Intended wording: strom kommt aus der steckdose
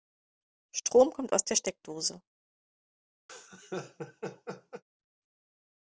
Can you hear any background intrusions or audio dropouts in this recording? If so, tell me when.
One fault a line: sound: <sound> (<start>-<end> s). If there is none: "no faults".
sound: laugh (3.3-4.8 s)